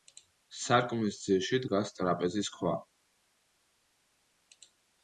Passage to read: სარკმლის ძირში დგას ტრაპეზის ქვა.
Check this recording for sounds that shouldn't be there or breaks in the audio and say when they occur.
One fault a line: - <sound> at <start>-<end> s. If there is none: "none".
none